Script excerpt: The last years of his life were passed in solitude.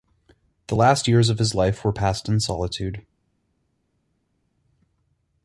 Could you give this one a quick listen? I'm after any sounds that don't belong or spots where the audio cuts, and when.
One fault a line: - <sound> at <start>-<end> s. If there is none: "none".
none